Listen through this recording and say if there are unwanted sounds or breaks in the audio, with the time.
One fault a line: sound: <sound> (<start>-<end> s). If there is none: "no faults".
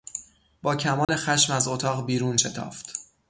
sound: dropout (1.0-1.1 s)